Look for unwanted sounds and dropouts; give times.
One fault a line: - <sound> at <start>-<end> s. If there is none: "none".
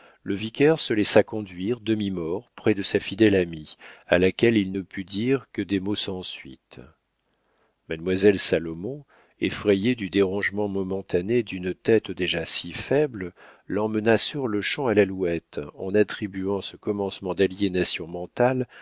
none